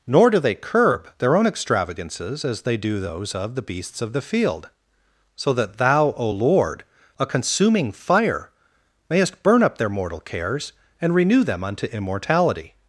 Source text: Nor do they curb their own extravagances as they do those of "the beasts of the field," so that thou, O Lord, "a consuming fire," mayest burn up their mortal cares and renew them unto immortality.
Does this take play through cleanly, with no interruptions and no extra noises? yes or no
yes